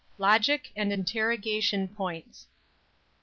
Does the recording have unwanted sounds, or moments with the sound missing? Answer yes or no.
no